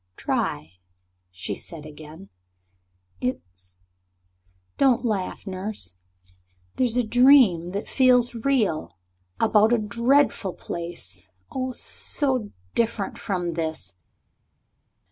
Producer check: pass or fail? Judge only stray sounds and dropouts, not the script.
pass